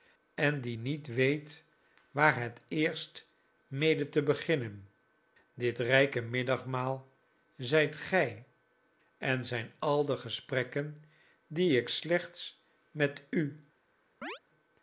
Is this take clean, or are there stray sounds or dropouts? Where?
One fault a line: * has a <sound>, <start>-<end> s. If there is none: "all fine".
* has a chirp, 14.2-14.4 s